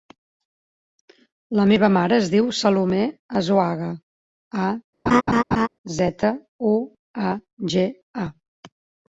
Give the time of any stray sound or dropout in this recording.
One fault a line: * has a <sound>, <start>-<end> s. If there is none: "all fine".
* has a laugh, 5.1-5.7 s